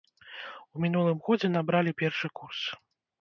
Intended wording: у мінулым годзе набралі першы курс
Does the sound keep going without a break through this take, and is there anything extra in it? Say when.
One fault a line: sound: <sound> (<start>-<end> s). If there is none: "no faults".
no faults